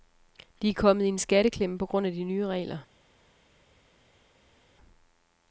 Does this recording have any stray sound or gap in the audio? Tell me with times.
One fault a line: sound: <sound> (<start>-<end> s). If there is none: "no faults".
no faults